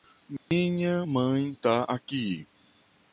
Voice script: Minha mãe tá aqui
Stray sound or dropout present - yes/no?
yes